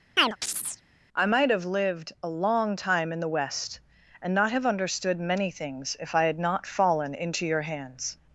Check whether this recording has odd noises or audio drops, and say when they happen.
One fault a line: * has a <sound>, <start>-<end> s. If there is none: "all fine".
* has a chirp, 0.2-0.8 s